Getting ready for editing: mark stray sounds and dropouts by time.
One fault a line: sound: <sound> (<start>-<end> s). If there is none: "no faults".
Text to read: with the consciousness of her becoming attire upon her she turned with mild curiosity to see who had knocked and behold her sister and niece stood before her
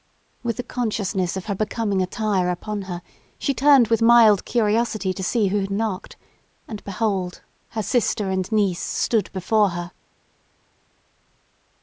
no faults